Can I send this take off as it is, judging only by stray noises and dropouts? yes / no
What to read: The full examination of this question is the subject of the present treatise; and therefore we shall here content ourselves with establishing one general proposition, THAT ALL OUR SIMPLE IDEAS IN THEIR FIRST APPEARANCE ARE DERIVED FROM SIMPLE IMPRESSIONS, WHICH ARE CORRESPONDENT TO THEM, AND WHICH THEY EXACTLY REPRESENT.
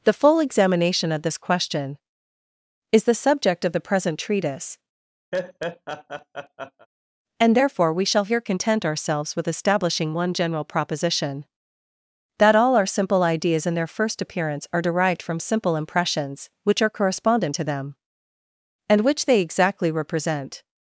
no